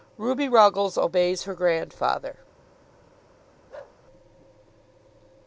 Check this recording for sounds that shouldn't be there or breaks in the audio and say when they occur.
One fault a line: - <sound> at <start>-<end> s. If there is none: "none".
- bark at 3.7-4.0 s